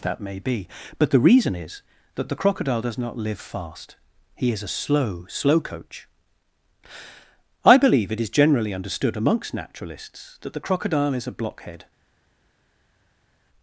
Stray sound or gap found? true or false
false